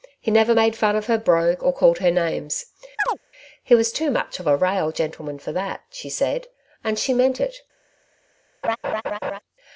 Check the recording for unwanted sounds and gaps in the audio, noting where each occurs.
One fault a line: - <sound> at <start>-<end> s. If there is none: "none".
- chirp at 3.0-3.2 s
- laugh at 8.6-9.4 s